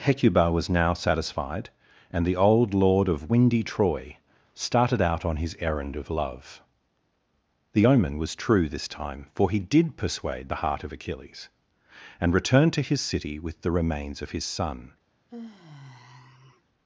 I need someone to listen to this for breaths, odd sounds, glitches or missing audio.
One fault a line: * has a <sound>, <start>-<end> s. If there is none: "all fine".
* has a sigh, 15.3-16.6 s